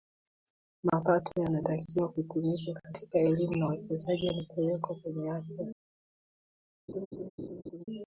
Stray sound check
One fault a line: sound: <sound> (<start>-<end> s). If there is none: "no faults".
sound: laugh (6.9-7.8 s)